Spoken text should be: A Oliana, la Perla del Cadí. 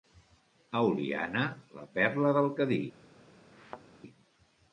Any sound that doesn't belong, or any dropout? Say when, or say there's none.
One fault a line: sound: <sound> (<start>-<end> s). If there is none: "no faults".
sound: thud (3.5-3.8 s)